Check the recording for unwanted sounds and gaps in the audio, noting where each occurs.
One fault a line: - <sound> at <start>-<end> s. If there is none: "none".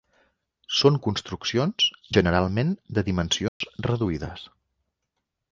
- dropout at 3.5-3.6 s